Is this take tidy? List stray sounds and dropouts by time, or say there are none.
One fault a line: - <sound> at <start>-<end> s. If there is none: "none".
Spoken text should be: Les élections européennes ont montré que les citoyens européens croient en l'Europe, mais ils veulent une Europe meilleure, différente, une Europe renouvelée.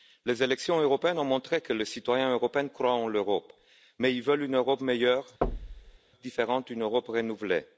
- thud at 5.4-6.0 s